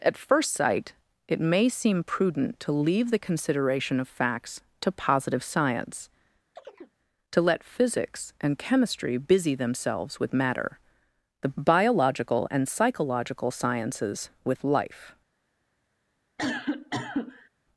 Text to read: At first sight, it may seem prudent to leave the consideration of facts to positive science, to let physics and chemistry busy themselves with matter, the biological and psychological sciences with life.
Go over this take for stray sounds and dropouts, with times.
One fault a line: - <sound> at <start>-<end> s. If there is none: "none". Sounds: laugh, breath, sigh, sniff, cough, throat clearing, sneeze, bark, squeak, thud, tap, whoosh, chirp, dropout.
- chirp at 6.6-7.0 s
- cough at 16.4-17.5 s